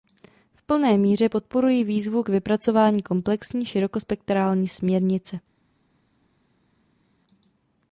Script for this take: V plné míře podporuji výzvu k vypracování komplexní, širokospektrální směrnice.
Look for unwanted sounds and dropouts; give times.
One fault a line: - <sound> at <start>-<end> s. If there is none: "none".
none